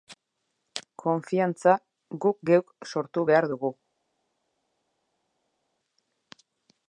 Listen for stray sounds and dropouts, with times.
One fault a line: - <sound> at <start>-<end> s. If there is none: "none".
none